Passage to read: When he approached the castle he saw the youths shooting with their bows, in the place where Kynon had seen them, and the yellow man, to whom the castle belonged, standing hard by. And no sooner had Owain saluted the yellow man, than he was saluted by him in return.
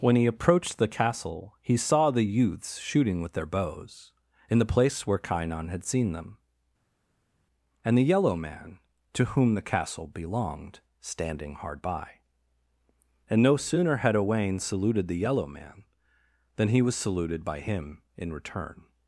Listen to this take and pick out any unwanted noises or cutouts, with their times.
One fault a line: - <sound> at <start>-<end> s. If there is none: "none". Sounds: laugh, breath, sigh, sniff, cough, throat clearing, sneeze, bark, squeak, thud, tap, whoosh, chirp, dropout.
none